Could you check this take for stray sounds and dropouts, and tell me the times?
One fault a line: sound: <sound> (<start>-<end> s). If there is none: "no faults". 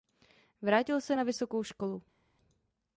no faults